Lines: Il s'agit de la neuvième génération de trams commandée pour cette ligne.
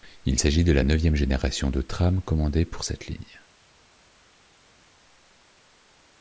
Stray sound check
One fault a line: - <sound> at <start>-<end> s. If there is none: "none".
none